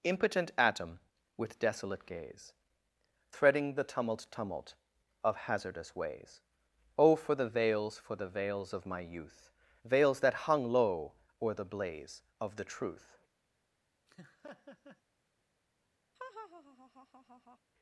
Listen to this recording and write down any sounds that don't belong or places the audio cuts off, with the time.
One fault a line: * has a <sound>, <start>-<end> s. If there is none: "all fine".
* has a laugh, 14.1-15.0 s
* has a laugh, 16.1-17.6 s